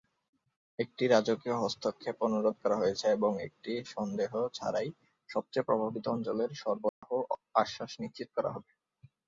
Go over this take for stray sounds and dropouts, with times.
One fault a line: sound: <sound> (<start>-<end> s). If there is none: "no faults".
sound: dropout (6.9-7.0 s)